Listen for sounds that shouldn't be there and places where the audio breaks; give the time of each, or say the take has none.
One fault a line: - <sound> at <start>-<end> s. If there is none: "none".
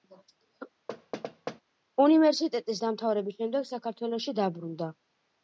- thud at 0.9-1.6 s